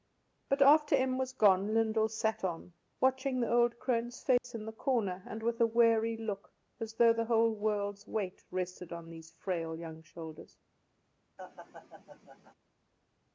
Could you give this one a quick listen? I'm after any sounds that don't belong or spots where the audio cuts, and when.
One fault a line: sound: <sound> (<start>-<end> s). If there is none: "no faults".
sound: dropout (4.4-4.4 s)
sound: laugh (11.4-12.5 s)